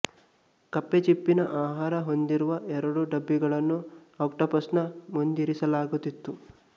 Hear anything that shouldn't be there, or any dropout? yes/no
no